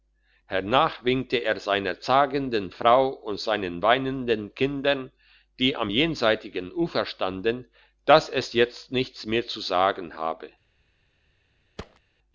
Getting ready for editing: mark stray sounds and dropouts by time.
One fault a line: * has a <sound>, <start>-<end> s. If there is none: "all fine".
* has a thud, 11.8-12.0 s